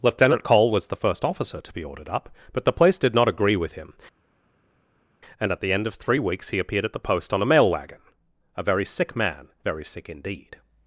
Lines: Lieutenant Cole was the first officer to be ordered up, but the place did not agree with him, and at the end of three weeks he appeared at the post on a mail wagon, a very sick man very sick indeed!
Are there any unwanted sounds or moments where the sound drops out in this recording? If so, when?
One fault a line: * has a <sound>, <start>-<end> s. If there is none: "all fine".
all fine